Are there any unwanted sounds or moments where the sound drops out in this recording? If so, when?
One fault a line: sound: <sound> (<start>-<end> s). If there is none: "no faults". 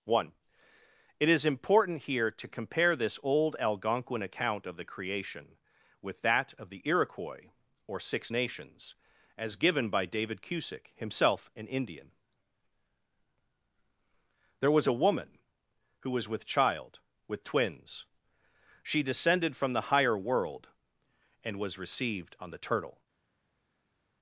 no faults